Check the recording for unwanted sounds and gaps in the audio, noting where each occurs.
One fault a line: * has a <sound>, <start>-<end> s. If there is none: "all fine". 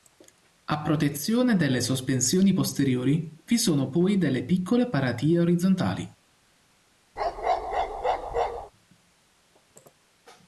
* has a bark, 7.2-8.7 s